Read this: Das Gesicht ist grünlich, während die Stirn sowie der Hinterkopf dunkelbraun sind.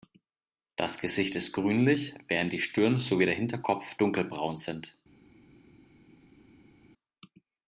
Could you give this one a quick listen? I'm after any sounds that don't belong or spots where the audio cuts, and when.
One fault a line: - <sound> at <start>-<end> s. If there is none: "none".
none